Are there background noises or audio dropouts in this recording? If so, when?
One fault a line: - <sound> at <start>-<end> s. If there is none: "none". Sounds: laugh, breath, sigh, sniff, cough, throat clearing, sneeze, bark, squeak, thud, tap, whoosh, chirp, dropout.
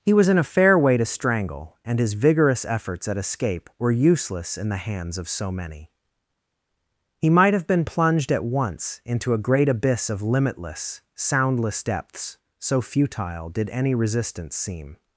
none